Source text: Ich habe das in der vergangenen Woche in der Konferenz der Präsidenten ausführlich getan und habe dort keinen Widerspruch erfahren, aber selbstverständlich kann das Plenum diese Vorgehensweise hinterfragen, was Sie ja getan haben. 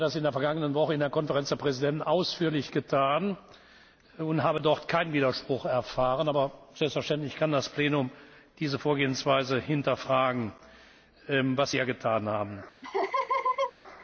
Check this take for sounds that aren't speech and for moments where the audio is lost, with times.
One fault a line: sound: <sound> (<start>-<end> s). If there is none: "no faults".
sound: laugh (12.8-13.7 s)